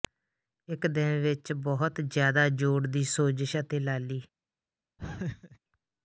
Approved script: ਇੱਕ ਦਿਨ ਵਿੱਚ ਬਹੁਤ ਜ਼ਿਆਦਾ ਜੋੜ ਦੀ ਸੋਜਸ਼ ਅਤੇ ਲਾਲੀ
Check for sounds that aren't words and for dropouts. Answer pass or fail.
fail